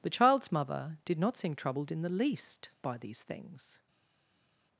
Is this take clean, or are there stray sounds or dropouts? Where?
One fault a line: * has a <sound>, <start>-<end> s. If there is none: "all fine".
all fine